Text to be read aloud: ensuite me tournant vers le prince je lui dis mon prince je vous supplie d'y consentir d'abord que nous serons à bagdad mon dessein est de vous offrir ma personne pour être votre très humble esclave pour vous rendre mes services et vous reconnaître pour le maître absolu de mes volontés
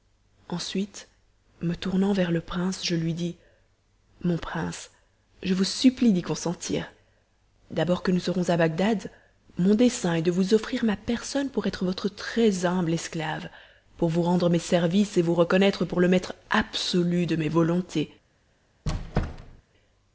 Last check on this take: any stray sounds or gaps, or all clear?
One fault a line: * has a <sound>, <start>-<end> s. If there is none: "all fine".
* has a squeak, 18.9-19.6 s